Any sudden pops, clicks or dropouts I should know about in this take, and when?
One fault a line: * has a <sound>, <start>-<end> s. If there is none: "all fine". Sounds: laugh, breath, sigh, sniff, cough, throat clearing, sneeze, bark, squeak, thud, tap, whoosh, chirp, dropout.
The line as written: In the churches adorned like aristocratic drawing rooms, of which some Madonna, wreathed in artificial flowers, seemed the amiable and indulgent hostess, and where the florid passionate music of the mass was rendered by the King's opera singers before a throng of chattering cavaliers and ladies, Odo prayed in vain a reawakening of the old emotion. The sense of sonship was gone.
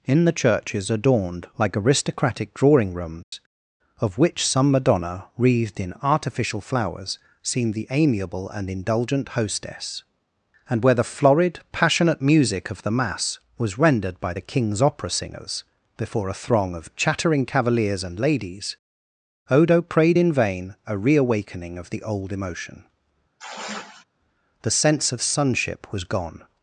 * has a dropout, 3.2-3.3 s
* has a sigh, 23.4-24.0 s